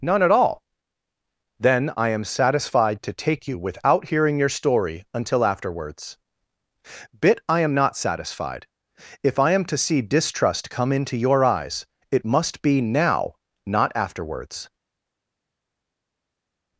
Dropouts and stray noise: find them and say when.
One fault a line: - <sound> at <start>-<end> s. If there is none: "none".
none